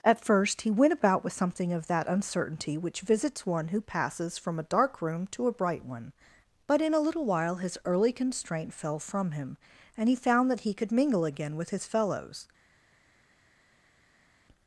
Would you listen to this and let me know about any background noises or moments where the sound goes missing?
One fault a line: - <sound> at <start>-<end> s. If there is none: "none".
none